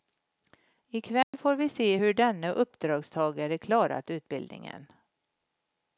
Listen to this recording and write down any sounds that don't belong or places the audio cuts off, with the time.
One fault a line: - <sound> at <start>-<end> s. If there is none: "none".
- dropout at 1.2-1.3 s